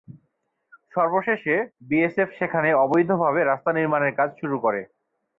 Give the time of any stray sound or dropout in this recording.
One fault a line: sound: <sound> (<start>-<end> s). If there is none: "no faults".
no faults